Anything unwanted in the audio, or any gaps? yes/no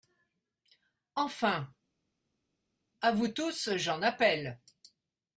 no